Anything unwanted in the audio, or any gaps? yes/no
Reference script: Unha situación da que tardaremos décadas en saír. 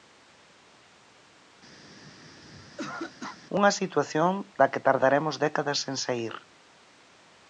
yes